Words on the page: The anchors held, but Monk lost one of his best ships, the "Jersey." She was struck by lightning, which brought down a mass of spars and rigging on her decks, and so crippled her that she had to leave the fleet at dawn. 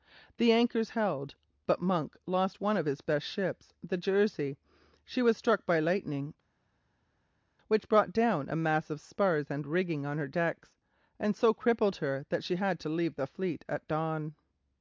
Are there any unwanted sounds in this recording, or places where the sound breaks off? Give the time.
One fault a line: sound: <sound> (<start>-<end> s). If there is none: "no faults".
no faults